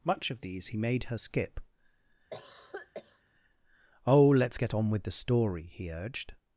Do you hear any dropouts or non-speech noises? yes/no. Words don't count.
yes